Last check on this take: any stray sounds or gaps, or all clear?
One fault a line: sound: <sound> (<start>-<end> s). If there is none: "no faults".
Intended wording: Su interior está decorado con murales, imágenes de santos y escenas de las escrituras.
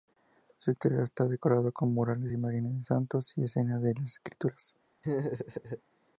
sound: laugh (5.0-5.8 s)